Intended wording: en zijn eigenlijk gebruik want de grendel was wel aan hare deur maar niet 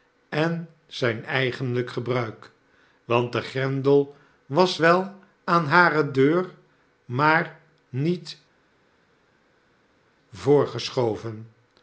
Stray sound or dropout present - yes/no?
no